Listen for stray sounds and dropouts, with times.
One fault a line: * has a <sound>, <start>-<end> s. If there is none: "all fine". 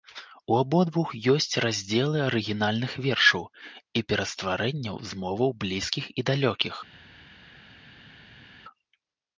all fine